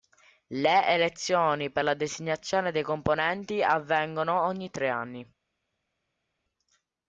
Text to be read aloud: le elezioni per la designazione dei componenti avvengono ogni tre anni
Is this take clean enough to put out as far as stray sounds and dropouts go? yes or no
yes